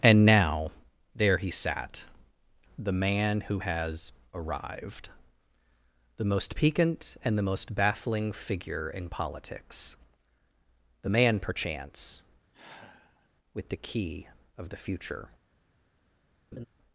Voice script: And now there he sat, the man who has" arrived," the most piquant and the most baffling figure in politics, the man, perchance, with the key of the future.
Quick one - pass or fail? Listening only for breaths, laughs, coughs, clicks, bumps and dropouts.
fail